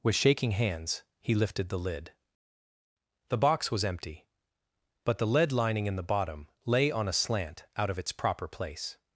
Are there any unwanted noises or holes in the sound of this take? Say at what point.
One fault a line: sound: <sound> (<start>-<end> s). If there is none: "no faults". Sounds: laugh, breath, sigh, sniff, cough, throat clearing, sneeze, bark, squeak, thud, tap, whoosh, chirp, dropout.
no faults